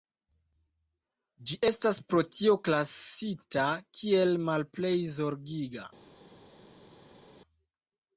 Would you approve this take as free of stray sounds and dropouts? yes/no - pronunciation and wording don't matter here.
yes